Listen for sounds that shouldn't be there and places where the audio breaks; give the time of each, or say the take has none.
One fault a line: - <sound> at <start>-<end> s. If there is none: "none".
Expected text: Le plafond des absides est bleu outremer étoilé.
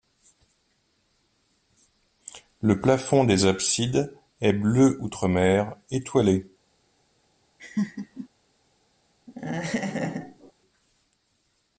- laugh at 7.6-8.3 s
- laugh at 9.3-10.5 s